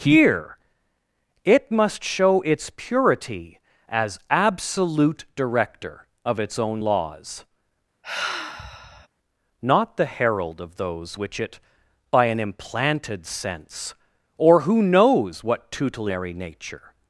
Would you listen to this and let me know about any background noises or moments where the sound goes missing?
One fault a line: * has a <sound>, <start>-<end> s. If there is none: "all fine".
* has a sigh, 8.0-9.1 s